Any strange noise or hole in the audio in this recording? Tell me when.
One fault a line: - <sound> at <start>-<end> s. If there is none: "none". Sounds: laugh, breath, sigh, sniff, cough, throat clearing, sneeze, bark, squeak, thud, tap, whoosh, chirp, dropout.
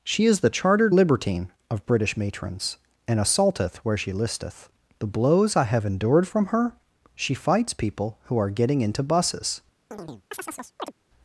- chirp at 9.9-10.9 s